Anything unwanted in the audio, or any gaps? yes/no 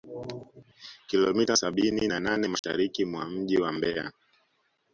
yes